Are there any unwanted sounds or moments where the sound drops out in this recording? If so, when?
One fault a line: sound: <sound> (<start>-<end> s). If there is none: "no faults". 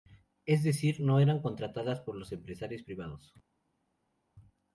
no faults